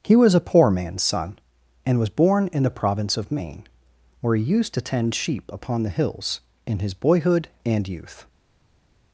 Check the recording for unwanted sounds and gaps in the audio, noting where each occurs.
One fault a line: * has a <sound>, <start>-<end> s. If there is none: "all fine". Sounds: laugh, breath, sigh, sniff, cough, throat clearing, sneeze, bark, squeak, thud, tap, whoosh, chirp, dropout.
all fine